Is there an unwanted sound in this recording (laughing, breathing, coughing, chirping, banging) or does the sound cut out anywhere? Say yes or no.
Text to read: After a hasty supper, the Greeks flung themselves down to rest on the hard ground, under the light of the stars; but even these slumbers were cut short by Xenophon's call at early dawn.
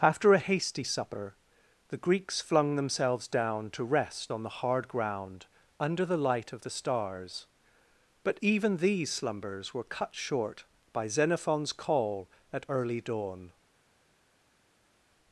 no